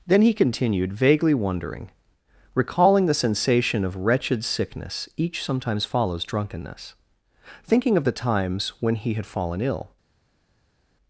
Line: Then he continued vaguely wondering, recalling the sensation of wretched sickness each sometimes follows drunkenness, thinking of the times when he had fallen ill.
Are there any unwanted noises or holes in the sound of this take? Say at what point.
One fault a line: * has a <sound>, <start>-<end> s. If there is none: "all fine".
all fine